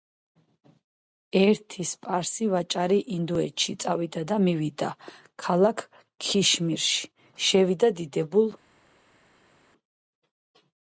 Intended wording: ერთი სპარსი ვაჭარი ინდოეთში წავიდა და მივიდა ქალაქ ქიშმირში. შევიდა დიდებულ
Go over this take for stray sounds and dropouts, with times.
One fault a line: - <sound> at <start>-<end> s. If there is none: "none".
none